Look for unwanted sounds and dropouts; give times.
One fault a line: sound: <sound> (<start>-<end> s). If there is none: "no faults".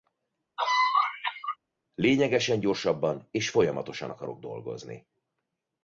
sound: cough (0.6-1.6 s)